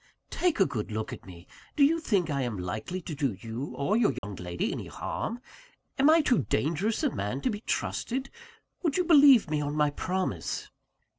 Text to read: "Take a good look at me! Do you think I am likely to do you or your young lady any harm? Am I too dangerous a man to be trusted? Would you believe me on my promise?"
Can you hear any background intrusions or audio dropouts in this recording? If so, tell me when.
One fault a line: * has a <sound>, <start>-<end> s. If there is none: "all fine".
* has a dropout, 4.2-4.2 s